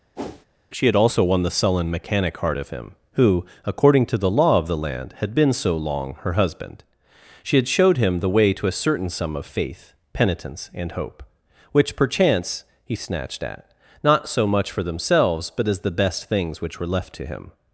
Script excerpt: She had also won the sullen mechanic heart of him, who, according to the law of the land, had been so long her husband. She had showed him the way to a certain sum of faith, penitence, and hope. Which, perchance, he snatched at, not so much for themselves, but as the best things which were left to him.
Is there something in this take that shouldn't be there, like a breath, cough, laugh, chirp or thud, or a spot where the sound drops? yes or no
yes